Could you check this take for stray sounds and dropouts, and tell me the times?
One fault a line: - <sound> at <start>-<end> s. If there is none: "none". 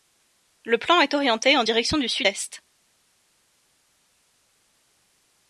none